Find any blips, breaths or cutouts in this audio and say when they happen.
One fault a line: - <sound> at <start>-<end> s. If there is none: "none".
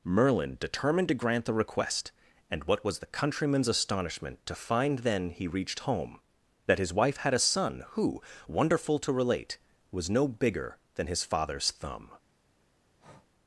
- breath at 13.0-13.3 s